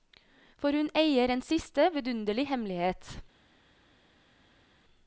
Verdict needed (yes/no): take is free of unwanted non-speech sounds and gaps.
yes